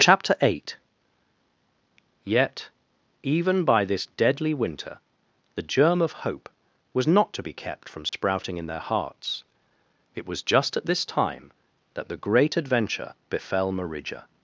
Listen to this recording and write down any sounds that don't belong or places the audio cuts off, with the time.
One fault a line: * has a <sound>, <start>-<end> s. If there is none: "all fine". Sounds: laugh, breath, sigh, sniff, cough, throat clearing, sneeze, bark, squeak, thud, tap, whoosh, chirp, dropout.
* has a dropout, 8.1-8.1 s